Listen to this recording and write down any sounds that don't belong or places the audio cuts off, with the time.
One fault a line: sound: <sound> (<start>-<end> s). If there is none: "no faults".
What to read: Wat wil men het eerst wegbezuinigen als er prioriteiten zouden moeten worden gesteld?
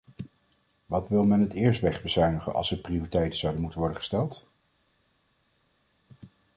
no faults